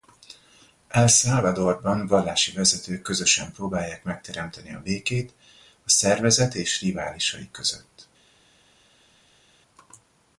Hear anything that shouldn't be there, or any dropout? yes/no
no